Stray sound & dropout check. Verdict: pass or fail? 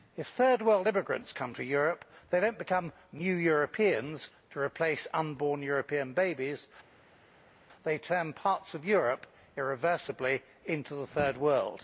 pass